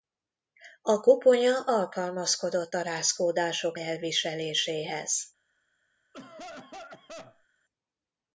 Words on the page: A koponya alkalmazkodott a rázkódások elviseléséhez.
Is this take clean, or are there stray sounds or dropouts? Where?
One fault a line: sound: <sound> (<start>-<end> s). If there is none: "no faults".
sound: cough (6.1-7.5 s)